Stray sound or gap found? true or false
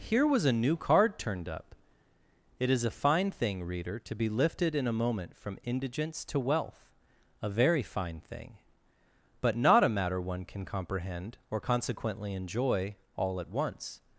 false